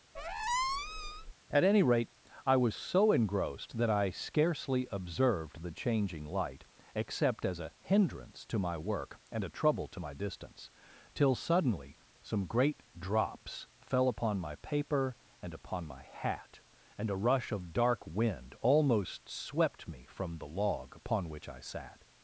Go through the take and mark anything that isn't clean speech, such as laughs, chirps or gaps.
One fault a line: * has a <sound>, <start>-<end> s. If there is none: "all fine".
* has a squeak, 0.1-1.3 s